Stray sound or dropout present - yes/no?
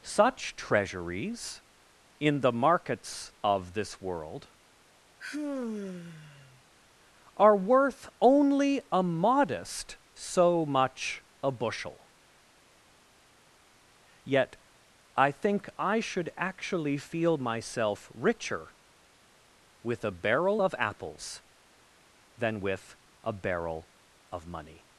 yes